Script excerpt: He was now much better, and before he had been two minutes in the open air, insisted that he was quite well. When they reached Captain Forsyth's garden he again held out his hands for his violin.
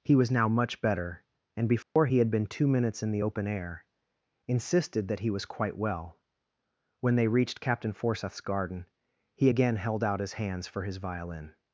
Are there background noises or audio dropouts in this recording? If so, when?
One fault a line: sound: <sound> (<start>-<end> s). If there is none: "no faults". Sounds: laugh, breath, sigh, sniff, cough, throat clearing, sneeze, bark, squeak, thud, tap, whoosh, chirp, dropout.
sound: dropout (1.8-2.0 s)